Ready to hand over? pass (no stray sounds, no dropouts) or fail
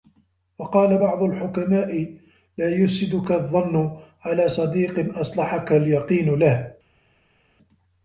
pass